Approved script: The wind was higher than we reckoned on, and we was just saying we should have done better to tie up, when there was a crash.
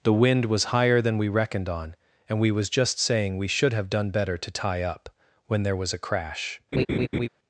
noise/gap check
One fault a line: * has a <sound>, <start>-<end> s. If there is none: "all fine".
* has a laugh, 6.7-7.3 s